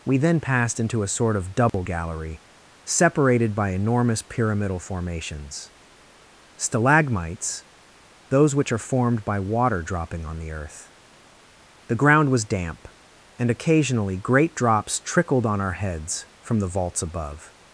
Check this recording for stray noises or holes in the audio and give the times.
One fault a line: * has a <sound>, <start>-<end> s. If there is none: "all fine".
* has a dropout, 1.7-1.7 s